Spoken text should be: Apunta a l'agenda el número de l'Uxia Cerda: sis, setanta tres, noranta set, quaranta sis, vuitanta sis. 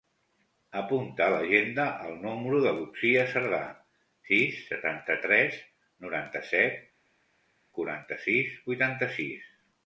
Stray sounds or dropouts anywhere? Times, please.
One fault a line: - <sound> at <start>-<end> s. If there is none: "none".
none